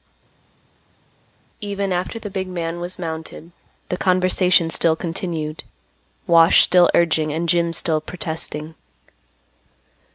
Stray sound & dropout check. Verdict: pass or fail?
pass